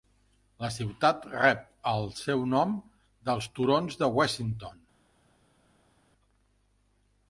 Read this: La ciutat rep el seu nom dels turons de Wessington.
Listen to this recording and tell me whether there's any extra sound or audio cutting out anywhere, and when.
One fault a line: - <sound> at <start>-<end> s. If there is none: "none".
none